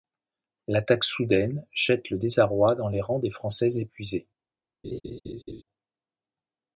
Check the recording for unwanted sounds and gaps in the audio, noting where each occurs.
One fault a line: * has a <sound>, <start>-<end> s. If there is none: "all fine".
* has a laugh, 4.8-5.6 s